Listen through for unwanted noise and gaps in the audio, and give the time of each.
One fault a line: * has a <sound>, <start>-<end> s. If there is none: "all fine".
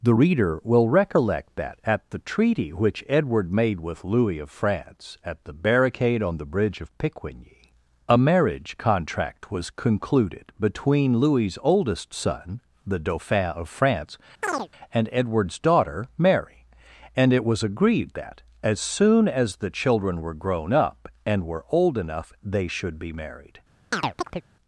* has a chirp, 14.4-14.7 s
* has a chirp, 23.9-24.4 s